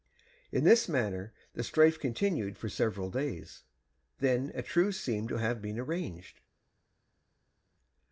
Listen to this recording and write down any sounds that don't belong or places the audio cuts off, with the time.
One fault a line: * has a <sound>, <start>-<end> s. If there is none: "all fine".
all fine